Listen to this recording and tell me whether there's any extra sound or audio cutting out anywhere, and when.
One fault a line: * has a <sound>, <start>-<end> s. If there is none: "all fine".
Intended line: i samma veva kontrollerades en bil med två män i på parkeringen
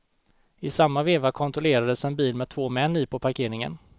all fine